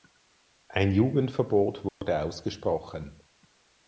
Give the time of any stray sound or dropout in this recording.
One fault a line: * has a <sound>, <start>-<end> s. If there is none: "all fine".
* has a dropout, 1.9-2.0 s